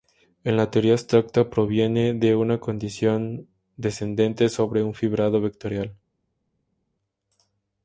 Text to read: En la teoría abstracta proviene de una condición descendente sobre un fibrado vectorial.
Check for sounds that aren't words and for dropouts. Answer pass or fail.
pass